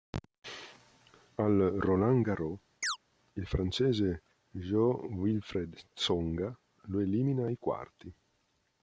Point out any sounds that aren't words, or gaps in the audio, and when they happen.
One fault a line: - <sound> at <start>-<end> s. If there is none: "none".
- chirp at 2.8-3.0 s